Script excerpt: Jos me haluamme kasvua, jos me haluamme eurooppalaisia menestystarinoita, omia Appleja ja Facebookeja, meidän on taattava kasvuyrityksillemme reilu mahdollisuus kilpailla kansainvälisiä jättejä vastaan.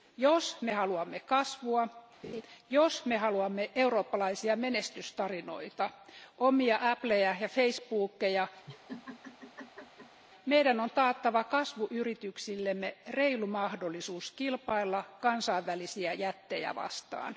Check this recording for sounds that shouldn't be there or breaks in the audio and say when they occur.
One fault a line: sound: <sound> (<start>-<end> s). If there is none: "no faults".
sound: laugh (2.2-2.4 s)
sound: laugh (8.7-10.2 s)